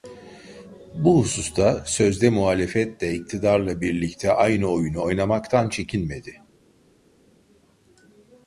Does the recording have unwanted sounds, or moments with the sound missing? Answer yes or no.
no